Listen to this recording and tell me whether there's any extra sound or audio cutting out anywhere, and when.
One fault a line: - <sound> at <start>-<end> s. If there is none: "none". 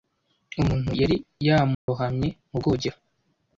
- dropout at 1.7-1.9 s